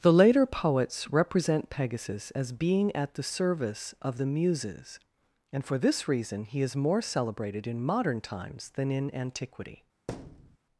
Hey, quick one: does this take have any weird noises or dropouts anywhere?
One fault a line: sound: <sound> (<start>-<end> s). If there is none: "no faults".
sound: thud (10.1-10.6 s)